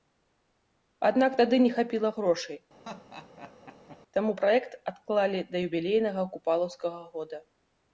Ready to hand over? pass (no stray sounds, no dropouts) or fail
fail